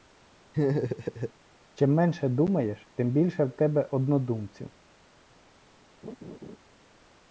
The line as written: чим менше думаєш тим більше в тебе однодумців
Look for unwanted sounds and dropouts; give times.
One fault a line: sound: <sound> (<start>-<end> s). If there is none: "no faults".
sound: laugh (0.5-1.3 s)
sound: laugh (6.0-6.6 s)